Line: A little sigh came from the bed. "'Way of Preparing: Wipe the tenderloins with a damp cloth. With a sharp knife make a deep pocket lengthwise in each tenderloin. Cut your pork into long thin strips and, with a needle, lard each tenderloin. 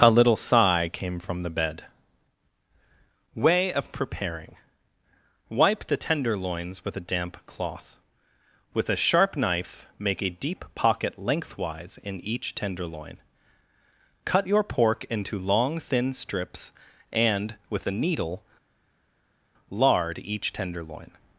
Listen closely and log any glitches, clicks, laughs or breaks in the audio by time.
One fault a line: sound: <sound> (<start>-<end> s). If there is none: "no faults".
no faults